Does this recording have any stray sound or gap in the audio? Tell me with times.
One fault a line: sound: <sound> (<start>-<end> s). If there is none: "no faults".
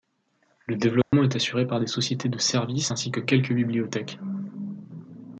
sound: dropout (1.0-1.1 s)